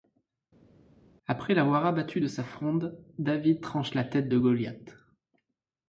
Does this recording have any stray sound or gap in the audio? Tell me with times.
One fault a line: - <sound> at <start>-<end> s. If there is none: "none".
none